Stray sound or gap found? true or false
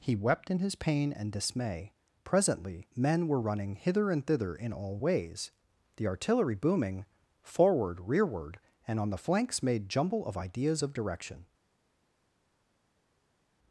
false